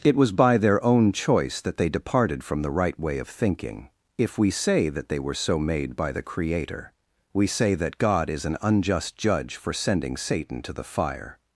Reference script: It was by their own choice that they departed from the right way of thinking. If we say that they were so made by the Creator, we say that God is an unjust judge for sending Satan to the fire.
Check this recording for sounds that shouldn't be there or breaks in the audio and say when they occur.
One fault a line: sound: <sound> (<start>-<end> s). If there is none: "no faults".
no faults